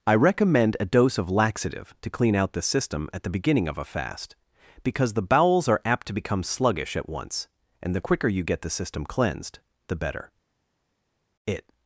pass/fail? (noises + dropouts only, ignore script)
pass